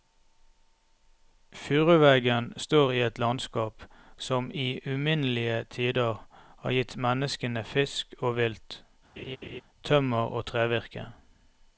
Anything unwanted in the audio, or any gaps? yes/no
yes